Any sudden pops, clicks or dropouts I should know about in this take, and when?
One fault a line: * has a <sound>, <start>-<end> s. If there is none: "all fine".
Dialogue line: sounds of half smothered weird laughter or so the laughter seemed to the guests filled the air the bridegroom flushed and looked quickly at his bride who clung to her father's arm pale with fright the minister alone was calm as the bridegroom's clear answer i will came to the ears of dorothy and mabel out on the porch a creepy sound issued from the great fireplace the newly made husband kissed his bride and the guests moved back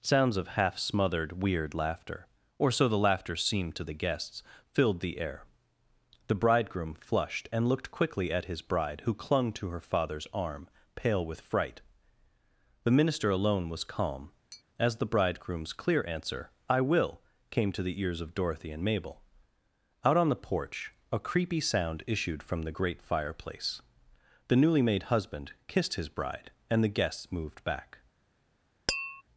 * has a tap, 14.5-14.6 s
* has a tap, 28.9-29.2 s